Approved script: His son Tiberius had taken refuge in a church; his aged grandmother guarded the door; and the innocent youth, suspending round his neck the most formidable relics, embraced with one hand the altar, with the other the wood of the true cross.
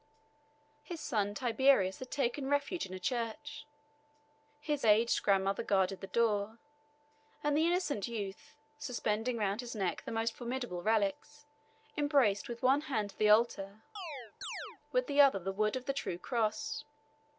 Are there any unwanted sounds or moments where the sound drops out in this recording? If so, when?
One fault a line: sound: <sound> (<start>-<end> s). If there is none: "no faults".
sound: chirp (14.0-14.8 s)